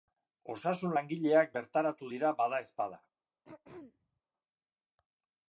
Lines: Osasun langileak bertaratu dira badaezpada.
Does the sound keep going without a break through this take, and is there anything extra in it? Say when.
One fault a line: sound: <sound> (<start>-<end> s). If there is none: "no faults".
sound: throat clearing (3.4-4.2 s)